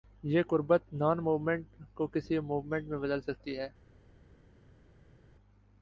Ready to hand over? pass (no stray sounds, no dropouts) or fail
pass